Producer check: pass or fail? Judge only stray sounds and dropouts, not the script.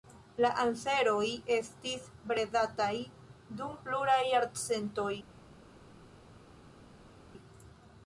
pass